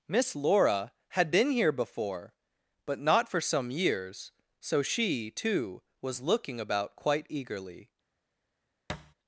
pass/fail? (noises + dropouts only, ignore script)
fail